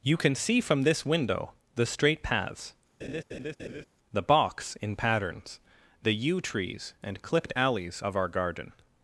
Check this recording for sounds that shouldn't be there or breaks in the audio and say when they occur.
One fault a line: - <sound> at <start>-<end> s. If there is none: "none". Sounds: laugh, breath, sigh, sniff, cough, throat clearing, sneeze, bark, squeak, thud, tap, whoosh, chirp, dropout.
- laugh at 3.0-3.8 s